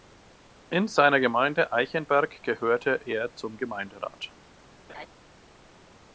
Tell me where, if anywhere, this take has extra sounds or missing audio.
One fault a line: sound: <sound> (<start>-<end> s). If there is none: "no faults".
sound: laugh (4.9-5.1 s)